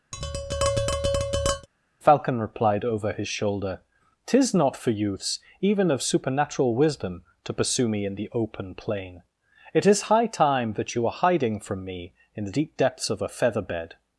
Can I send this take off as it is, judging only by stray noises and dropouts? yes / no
no